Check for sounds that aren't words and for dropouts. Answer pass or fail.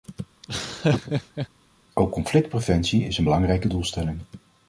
fail